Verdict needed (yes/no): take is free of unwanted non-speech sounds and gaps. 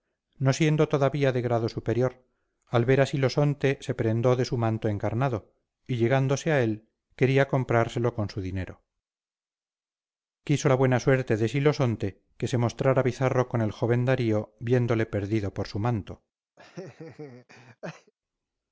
no